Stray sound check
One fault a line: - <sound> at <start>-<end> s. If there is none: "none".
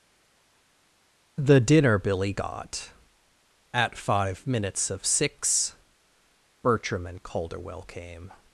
none